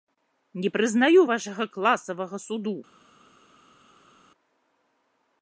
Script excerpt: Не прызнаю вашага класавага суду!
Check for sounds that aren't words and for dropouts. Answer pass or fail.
pass